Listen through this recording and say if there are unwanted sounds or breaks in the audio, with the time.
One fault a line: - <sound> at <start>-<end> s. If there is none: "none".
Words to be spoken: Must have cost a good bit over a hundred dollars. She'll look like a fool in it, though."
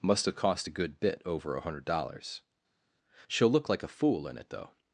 none